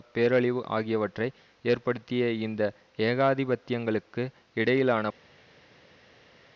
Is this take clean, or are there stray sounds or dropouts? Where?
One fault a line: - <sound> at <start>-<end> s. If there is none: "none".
none